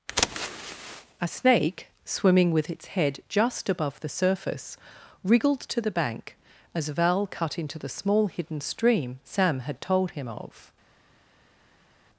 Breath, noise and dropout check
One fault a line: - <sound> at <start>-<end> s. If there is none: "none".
none